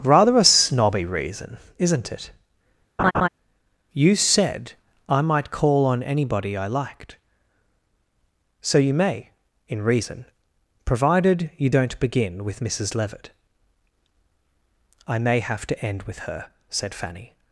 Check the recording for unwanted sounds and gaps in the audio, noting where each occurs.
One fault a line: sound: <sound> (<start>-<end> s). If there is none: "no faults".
sound: laugh (3.0-3.3 s)